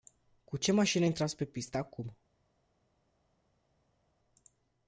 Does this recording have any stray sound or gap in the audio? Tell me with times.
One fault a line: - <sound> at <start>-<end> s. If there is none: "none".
none